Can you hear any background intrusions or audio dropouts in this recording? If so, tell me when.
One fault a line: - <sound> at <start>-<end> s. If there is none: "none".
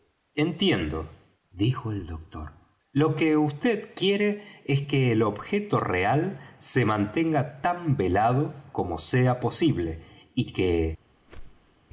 - whoosh at 11.3-11.7 s